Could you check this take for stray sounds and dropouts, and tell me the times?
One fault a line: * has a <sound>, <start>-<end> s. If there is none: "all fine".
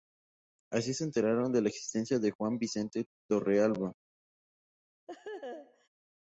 * has a laugh, 5.1-5.9 s